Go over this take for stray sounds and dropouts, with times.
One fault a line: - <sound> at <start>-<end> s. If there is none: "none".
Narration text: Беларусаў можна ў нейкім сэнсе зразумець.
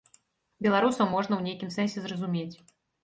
none